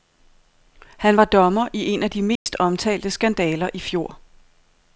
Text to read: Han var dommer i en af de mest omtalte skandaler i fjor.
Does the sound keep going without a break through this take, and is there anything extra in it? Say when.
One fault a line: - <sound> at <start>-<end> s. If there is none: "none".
- dropout at 2.4-2.5 s